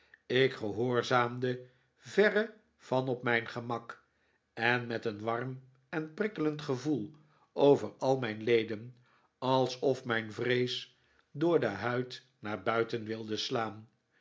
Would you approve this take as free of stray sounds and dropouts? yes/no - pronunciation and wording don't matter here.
yes